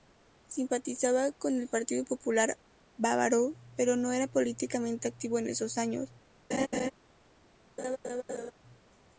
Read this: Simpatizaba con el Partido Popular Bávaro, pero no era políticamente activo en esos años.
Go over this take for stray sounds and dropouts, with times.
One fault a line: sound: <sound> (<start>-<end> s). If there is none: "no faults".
sound: laugh (6.5-6.9 s)
sound: laugh (7.8-8.5 s)